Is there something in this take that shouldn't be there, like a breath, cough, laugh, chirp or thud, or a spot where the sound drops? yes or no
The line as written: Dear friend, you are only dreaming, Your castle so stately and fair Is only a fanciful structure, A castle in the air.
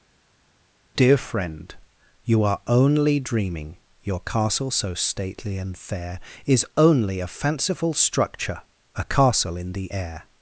no